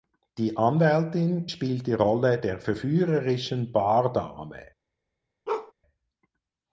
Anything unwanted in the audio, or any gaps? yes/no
yes